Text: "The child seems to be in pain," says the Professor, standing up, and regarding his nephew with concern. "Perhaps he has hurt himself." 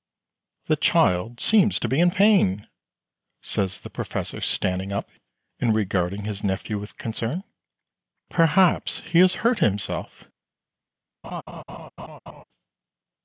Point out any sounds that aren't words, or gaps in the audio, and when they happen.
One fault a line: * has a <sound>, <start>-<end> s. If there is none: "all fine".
* has a laugh, 11.2-12.4 s